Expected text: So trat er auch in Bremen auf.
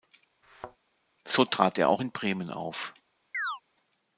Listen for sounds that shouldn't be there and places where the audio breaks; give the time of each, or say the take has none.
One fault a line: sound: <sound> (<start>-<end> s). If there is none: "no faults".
sound: thud (0.4-0.8 s)
sound: chirp (3.3-3.6 s)